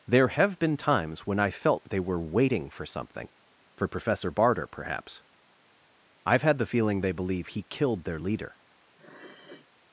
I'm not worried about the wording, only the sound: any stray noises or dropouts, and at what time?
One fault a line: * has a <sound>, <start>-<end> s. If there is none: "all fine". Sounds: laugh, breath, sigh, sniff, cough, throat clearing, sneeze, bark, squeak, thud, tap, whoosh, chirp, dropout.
* has a sniff, 9.0-9.7 s